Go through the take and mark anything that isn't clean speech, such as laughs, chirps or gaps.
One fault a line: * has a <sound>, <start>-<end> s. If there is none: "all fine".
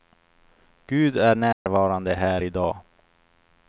* has a dropout, 1.5-1.7 s